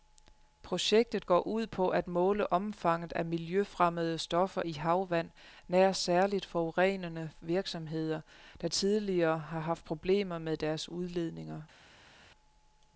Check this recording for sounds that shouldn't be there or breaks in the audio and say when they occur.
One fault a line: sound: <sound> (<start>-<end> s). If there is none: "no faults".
no faults